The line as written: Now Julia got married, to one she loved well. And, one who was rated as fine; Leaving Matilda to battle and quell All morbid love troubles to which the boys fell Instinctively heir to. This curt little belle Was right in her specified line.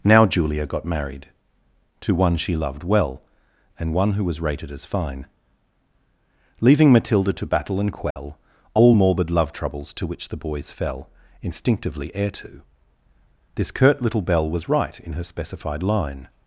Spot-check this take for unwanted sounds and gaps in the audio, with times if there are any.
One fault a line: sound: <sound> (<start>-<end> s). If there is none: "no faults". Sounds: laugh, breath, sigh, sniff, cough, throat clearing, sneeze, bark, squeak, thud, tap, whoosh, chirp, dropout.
sound: dropout (8.1-8.2 s)